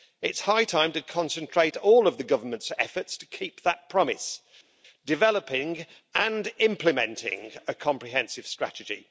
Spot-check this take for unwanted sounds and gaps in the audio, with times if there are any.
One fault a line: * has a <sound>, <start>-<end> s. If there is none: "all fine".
all fine